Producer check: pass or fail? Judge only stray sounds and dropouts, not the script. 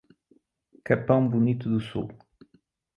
pass